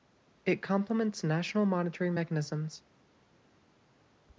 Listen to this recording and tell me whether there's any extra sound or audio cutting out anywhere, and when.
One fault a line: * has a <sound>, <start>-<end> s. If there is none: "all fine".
all fine